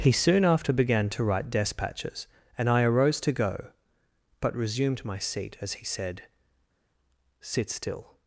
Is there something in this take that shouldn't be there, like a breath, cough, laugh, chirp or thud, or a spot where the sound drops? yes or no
no